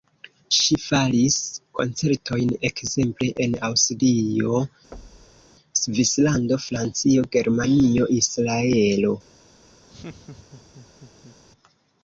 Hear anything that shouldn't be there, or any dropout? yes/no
yes